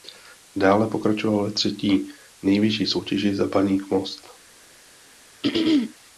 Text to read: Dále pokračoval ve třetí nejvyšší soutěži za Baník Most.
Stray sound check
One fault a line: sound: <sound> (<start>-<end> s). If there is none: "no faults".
sound: throat clearing (5.4-5.9 s)